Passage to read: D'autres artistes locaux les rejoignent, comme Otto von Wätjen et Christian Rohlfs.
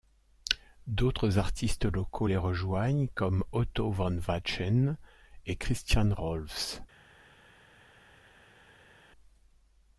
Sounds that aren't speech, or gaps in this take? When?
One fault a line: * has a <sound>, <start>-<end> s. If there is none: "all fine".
all fine